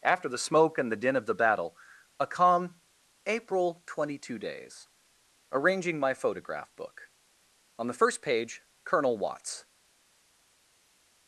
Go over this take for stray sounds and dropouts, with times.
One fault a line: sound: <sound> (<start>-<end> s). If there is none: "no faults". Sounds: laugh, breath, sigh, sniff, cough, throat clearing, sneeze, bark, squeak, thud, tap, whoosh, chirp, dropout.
no faults